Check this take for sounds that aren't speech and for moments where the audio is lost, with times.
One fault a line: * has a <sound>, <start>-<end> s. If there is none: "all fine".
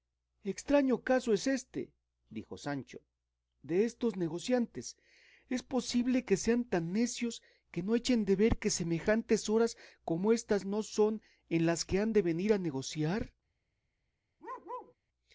* has a bark, 14.4-14.9 s